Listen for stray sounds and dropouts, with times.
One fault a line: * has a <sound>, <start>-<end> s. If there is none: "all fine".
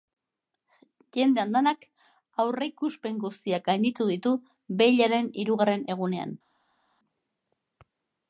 all fine